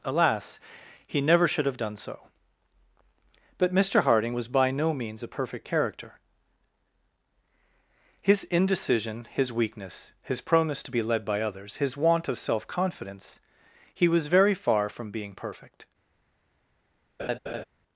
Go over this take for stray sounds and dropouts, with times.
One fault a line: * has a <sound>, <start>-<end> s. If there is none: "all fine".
* has a laugh, 17.2-17.6 s